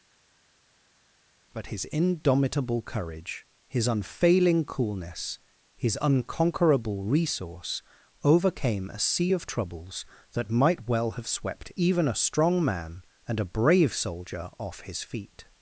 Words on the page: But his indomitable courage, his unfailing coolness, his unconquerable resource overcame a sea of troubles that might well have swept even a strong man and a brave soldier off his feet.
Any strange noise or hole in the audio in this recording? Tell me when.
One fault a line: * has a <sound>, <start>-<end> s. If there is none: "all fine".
all fine